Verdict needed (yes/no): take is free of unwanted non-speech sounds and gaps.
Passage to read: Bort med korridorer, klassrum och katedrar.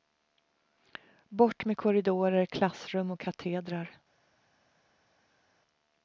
yes